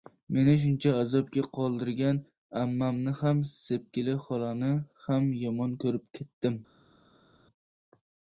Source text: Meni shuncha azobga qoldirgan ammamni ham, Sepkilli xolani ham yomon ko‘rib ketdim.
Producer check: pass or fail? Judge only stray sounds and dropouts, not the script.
pass